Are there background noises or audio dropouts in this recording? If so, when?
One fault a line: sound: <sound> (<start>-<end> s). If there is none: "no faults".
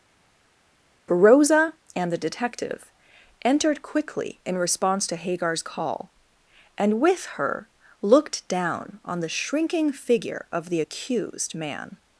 no faults